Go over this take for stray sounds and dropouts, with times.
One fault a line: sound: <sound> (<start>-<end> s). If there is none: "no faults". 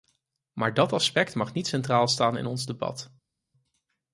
no faults